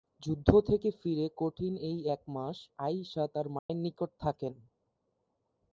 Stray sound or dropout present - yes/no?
yes